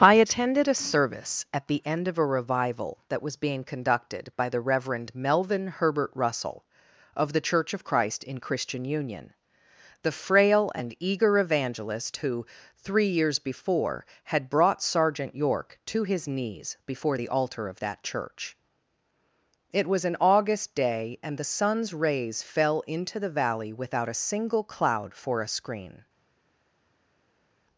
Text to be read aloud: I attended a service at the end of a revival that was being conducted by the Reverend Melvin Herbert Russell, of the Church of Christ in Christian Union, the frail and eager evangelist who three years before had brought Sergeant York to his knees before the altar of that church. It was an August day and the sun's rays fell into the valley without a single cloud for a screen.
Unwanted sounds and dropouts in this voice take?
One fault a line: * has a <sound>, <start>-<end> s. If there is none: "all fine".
all fine